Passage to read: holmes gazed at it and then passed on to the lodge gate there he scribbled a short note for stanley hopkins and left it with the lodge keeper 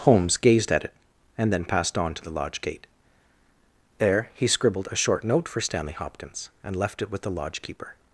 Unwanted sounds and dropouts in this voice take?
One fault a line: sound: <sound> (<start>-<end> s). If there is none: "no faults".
no faults